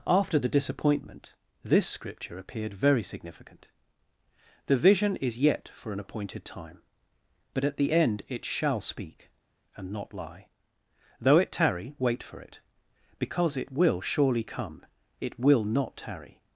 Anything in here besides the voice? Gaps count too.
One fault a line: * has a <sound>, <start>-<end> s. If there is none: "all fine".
all fine